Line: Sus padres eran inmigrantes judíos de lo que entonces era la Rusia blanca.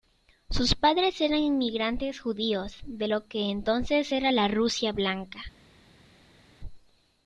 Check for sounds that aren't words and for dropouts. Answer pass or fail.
pass